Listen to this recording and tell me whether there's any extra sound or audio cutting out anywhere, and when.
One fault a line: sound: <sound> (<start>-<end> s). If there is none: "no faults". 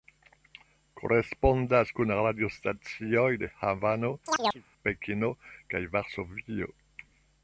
sound: chirp (4.3-4.6 s)